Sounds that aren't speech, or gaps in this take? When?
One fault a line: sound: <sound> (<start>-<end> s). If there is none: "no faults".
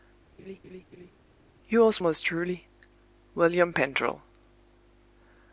sound: laugh (0.4-1.1 s)